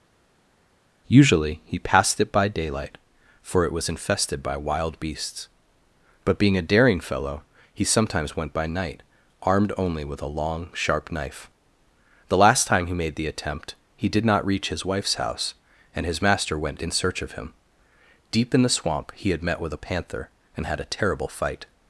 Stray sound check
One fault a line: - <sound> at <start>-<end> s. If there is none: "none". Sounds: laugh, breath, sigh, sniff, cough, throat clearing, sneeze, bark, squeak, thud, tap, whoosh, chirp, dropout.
none